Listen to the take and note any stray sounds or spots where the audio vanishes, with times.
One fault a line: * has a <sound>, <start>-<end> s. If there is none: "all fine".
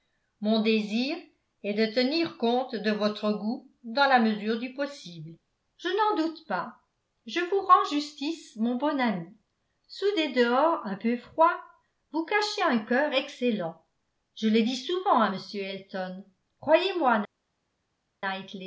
all fine